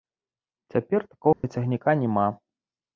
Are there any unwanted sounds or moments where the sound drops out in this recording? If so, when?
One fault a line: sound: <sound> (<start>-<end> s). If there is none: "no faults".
sound: dropout (1.3-1.4 s)